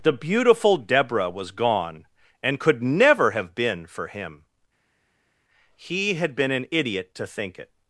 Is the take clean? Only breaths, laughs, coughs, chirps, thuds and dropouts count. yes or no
yes